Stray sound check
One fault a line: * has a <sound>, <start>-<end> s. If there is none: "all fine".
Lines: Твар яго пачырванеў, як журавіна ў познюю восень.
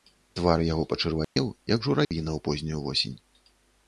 * has a dropout, 1.2-1.4 s
* has a dropout, 2.0-2.1 s